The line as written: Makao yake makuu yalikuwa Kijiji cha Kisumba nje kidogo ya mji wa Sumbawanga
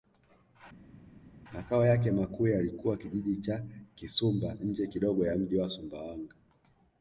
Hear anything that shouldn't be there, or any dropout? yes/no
no